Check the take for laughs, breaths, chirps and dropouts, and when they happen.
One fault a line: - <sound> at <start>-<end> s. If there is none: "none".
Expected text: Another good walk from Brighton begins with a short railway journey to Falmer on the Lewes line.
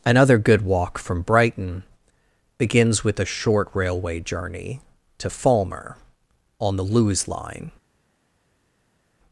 none